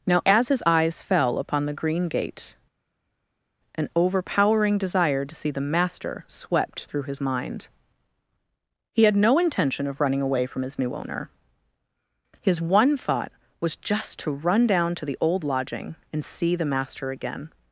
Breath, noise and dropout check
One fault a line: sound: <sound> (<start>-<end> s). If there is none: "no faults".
no faults